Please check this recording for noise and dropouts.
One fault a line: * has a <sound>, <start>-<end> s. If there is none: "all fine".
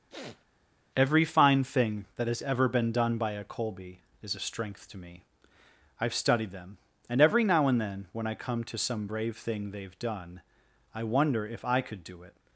* has a sniff, 0.1-0.5 s